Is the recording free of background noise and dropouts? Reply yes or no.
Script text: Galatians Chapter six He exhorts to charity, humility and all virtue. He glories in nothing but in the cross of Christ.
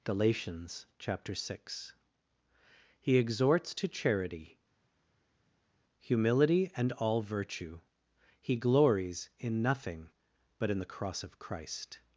yes